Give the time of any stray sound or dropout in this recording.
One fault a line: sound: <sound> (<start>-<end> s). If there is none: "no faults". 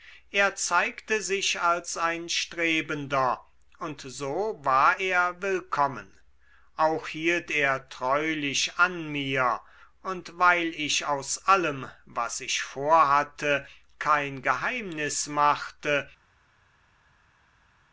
no faults